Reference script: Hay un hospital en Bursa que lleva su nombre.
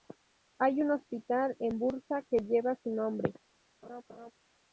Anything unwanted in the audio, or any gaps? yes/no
yes